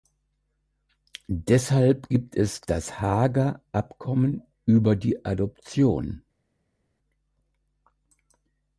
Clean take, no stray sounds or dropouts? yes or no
yes